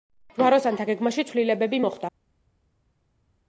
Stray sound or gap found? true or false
false